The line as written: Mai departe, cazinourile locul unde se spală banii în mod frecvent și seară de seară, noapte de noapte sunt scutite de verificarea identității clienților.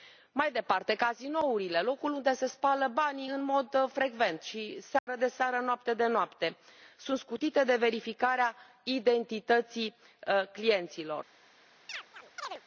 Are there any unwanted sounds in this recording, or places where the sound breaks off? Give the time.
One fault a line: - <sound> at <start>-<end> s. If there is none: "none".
- dropout at 5.0-5.1 s
- chirp at 11.9-12.6 s